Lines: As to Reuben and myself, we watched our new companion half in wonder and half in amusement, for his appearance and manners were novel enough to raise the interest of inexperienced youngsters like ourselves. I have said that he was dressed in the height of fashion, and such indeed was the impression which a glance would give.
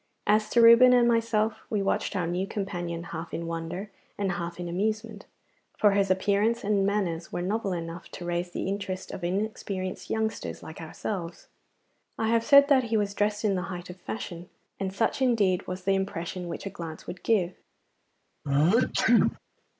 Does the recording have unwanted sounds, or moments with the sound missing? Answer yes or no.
yes